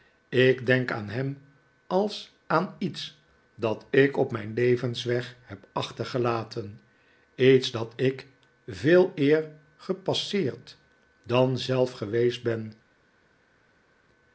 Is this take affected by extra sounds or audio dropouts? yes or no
no